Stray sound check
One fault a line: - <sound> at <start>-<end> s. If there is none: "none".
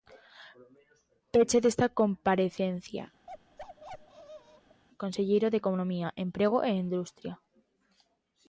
- bark at 3.3-4.8 s